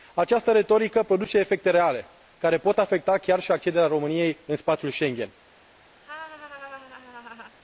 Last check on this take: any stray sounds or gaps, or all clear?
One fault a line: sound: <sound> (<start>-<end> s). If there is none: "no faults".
sound: laugh (6.0-7.6 s)